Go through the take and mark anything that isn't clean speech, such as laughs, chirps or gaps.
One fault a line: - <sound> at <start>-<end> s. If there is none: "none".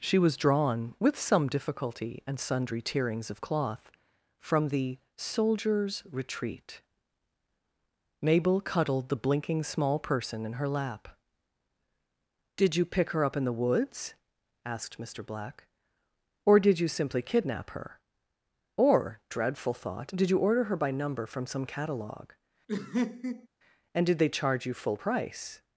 - laugh at 22.7-23.5 s